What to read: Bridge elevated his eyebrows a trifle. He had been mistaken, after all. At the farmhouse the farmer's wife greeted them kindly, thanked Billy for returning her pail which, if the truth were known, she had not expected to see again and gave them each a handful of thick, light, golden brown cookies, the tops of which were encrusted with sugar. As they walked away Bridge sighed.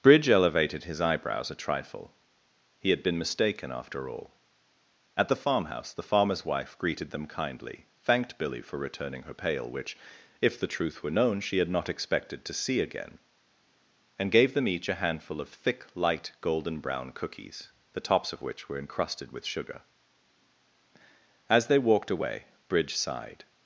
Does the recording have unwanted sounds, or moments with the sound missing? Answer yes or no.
no